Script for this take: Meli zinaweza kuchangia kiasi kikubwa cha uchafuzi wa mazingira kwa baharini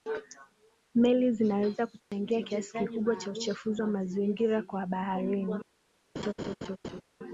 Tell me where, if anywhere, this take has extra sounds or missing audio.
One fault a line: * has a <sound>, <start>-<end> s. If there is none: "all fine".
* has a dropout, 2.0-2.1 s
* has a laugh, 6.2-7.0 s